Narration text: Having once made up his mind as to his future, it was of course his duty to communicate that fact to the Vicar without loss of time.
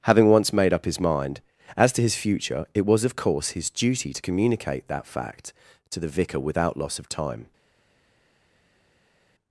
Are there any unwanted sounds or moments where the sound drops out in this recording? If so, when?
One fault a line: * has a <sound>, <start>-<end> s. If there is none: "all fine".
all fine